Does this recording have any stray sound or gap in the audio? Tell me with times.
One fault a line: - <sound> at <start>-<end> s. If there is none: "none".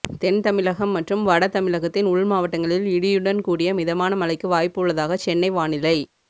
none